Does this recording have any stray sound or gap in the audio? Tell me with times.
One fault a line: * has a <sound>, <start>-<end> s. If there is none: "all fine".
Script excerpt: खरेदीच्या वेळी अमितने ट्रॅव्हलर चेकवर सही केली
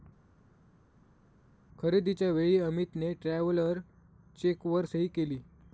all fine